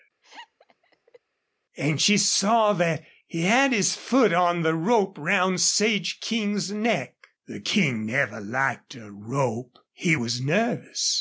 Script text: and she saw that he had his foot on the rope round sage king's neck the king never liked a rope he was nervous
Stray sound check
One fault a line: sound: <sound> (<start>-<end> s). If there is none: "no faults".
sound: laugh (0.2-1.2 s)